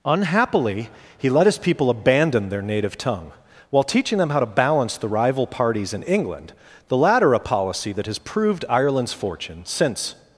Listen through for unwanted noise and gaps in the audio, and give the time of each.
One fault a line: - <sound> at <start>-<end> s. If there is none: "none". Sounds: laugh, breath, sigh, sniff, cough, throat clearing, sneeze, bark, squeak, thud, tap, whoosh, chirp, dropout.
none